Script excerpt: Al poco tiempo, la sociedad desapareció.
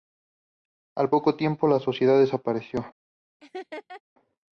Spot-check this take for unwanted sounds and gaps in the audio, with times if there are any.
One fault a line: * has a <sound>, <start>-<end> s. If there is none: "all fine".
* has a laugh, 3.4-4.0 s